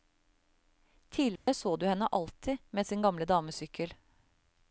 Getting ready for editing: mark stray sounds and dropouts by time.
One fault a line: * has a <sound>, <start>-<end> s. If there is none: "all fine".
* has a dropout, 1.4-1.5 s